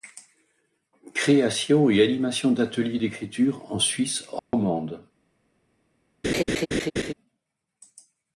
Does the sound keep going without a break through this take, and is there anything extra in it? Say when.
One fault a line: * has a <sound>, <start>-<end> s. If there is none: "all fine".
* has a dropout, 4.4-4.5 s
* has a laugh, 6.2-7.1 s